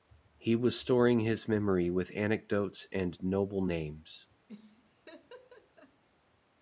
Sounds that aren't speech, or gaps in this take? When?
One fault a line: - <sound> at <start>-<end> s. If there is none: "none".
- laugh at 4.5-6.0 s